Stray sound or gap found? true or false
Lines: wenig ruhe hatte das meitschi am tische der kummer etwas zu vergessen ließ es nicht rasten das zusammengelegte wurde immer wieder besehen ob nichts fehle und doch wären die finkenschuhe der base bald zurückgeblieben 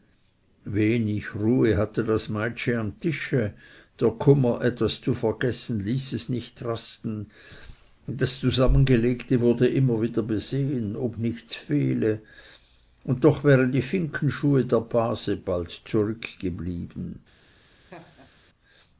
true